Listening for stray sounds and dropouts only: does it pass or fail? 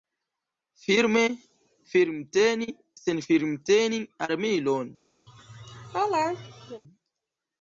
fail